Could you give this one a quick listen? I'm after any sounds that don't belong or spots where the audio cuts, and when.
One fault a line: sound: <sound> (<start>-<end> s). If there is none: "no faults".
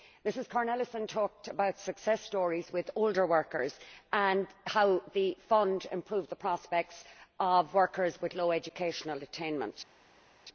no faults